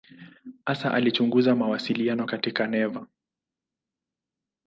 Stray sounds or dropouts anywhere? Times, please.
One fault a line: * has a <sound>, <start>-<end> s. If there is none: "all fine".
all fine